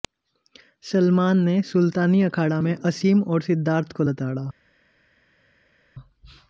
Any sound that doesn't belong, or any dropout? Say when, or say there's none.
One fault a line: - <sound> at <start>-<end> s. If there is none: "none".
none